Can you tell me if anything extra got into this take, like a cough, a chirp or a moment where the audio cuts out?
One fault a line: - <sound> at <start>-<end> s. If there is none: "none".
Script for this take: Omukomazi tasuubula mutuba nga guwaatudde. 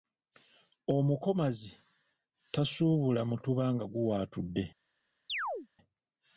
- chirp at 5.3-5.7 s